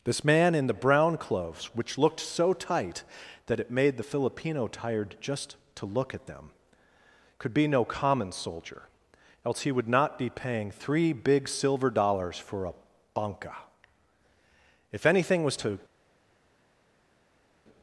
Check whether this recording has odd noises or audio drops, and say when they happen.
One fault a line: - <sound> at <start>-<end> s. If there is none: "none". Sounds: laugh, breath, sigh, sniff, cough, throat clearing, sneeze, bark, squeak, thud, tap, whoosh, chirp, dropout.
none